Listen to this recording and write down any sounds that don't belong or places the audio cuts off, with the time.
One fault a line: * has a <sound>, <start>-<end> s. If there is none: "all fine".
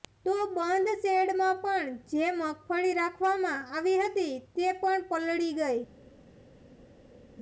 all fine